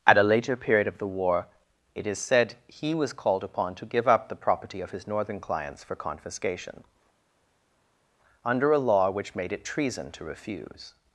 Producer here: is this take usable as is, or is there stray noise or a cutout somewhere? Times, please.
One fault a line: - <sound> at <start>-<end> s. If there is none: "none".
none